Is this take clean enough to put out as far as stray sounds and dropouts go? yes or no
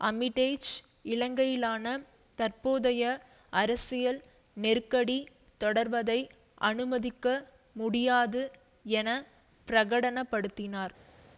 yes